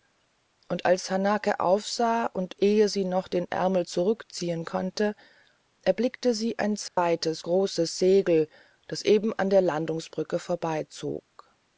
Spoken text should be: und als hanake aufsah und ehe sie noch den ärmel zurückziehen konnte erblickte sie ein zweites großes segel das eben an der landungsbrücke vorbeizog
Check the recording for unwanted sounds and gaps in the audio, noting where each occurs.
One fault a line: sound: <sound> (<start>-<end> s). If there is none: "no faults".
sound: dropout (6.9-7.0 s)